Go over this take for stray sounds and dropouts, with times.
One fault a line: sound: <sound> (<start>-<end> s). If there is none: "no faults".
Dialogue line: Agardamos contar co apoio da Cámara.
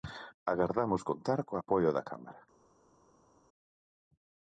no faults